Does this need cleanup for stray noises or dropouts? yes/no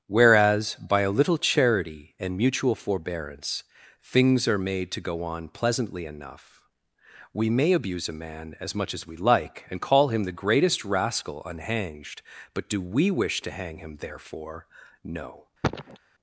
yes